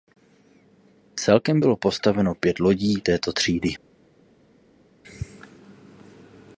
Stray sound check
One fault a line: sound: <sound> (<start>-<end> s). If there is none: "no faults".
no faults